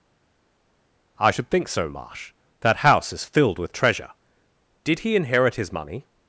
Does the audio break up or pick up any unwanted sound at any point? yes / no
no